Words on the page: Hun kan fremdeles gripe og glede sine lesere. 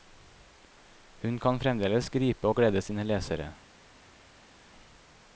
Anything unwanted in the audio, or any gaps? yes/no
no